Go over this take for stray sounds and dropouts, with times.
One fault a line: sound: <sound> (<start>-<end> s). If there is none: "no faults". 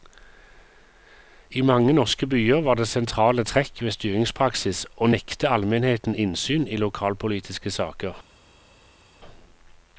no faults